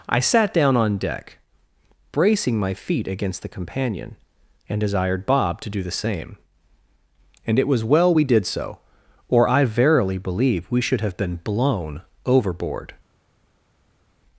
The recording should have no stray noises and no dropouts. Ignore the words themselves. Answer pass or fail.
pass